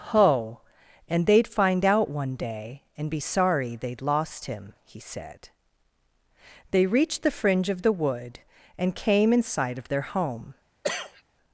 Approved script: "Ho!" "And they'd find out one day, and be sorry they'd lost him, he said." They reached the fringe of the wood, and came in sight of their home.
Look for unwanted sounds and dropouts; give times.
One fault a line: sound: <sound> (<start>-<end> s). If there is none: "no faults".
sound: cough (10.8-11.2 s)